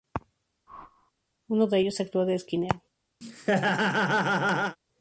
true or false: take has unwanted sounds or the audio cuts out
true